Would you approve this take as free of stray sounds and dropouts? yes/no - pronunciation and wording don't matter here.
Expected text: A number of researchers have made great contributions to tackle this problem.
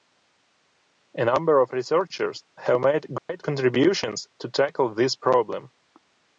no